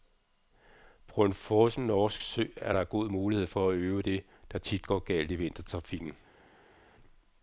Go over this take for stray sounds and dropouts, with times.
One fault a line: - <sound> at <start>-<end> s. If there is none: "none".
none